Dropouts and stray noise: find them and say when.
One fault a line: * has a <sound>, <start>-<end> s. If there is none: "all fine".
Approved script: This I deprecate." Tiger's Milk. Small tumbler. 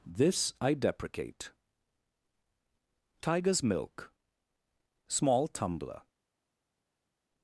all fine